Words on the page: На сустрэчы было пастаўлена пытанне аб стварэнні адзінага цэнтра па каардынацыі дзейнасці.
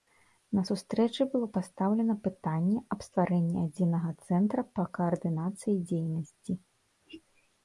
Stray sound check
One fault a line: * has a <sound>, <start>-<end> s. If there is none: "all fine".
all fine